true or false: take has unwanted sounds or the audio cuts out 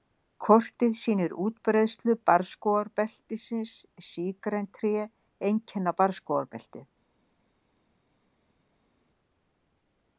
false